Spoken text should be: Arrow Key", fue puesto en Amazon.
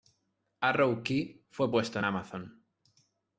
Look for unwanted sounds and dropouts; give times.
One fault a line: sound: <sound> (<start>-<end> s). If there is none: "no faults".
no faults